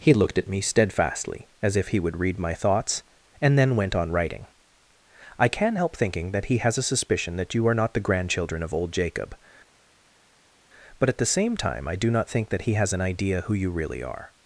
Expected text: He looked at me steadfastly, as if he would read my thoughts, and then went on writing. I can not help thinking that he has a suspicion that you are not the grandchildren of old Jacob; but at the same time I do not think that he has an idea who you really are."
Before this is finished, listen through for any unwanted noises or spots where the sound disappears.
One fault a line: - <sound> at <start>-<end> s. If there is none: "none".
none